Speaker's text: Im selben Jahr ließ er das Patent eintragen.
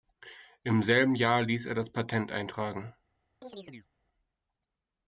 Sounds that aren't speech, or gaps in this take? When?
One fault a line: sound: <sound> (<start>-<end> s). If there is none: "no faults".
sound: chirp (3.4-3.9 s)